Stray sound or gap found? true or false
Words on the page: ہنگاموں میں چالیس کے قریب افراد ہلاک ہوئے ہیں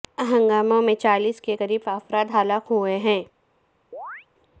true